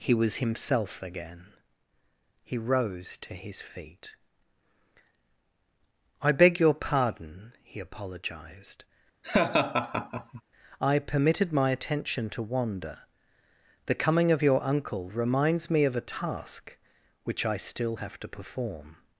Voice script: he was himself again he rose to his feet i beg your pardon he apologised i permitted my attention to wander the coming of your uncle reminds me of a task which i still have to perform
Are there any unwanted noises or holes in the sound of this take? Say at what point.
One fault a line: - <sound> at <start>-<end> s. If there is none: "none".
- laugh at 9.2-10.4 s